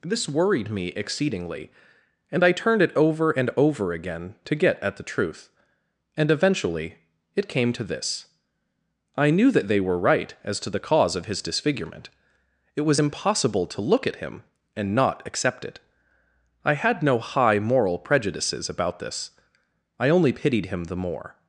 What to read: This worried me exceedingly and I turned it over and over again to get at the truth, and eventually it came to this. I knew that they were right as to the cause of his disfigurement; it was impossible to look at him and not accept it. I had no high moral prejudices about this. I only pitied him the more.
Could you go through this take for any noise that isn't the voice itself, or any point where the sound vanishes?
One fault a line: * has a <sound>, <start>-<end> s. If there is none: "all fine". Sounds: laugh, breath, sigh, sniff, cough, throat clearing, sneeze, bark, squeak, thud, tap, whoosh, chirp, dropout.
all fine